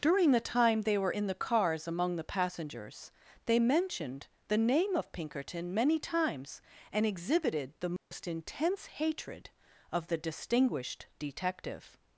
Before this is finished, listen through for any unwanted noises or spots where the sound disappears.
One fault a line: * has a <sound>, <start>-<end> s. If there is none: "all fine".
* has a dropout, 8.0-8.1 s